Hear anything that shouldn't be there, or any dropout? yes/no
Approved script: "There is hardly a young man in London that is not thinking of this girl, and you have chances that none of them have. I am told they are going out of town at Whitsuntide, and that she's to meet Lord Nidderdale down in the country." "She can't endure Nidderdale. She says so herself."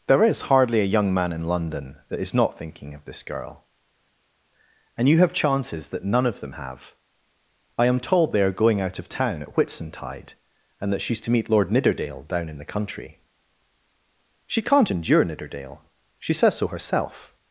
no